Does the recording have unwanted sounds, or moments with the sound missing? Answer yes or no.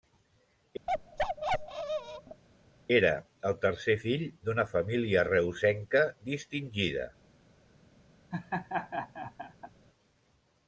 yes